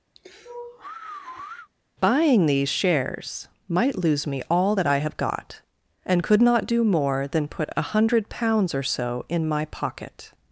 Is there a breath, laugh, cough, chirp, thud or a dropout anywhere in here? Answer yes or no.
yes